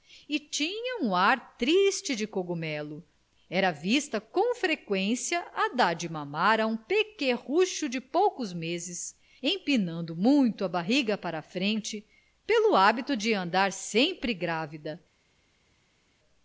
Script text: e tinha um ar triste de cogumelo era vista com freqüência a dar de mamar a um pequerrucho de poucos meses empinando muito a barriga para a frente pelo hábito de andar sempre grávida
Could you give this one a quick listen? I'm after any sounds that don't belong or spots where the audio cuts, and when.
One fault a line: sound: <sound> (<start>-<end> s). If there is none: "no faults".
no faults